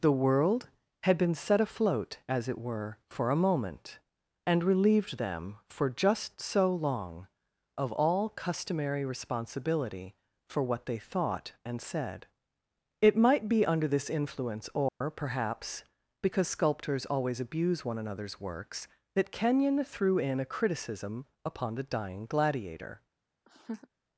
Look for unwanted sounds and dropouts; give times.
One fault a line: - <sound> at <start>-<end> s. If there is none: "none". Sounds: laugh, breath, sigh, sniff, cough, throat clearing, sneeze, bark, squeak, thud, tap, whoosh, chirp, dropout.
- dropout at 14.9-15.0 s
- laugh at 23.5-23.9 s